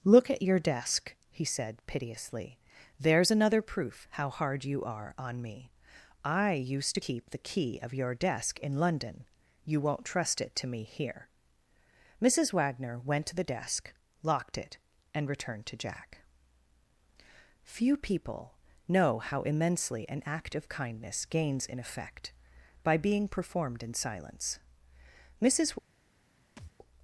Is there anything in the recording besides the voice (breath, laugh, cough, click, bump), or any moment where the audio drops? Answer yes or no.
yes